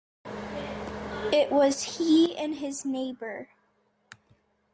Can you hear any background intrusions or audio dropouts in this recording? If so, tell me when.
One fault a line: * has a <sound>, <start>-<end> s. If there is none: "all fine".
all fine